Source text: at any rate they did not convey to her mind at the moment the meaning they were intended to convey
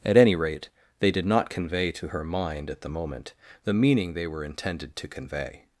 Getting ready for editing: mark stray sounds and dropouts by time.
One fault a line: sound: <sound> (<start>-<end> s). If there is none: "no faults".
no faults